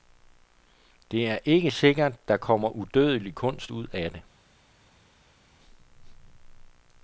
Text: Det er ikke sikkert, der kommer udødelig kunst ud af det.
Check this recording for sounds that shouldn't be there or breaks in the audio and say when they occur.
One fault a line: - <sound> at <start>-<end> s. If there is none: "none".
none